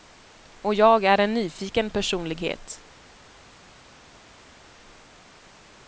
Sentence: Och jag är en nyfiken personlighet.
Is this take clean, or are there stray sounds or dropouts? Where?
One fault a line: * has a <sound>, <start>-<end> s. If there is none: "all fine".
all fine